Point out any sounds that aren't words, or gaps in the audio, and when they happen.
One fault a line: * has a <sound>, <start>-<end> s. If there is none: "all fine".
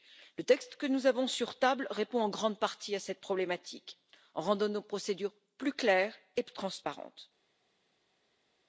all fine